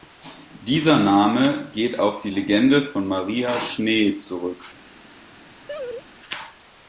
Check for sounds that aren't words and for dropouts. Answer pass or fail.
fail